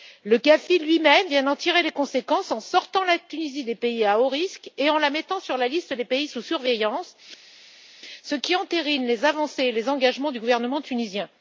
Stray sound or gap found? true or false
false